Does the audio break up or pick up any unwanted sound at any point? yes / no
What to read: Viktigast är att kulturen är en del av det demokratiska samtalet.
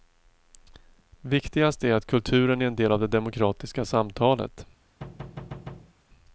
yes